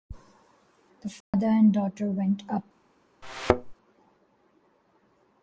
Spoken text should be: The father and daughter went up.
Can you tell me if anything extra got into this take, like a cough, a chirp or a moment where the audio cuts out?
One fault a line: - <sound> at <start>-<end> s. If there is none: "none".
- dropout at 1.2-1.3 s
- thud at 3.2-3.7 s